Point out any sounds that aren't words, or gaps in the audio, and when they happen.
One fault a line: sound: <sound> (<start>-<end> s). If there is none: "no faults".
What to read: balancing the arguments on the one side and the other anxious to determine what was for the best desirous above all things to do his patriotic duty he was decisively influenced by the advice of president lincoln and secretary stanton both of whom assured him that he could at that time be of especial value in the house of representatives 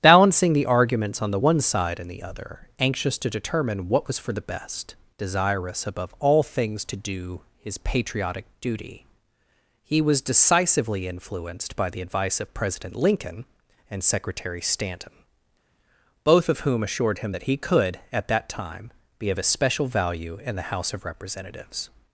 no faults